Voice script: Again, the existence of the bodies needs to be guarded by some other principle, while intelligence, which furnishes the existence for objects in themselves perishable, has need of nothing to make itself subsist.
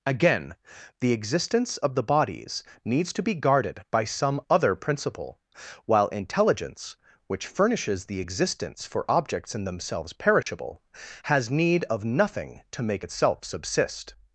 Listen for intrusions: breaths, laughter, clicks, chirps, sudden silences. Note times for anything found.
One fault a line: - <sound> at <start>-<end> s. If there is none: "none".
- dropout at 10.4-10.5 s